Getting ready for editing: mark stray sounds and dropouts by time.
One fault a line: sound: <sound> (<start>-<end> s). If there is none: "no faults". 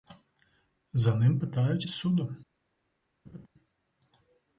sound: laugh (3.2-3.5 s)